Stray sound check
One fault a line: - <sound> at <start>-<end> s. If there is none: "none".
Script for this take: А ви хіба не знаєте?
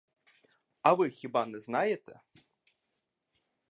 none